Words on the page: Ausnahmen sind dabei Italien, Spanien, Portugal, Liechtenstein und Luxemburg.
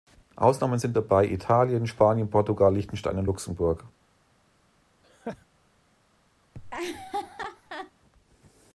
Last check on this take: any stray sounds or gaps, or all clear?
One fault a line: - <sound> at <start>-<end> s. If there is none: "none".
- laugh at 5.0-5.5 s
- laugh at 6.5-7.9 s